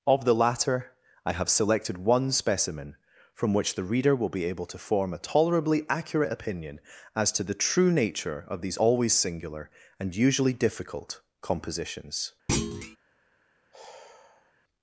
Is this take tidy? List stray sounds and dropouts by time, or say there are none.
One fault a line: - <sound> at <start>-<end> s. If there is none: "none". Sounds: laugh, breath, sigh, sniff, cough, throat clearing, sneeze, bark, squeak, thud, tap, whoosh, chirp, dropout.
- thud at 12.5-13.0 s
- sigh at 13.7-14.5 s